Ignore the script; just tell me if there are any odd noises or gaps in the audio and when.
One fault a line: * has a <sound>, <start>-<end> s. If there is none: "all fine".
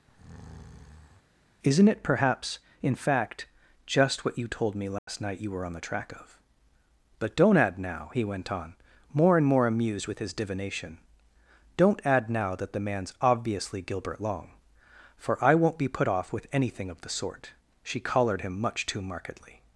* has a breath, 0.1-1.2 s
* has a dropout, 5.0-5.1 s